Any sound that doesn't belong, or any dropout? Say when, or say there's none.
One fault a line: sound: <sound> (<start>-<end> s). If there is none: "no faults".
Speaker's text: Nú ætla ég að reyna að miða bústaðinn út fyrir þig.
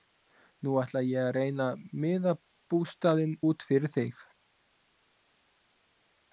no faults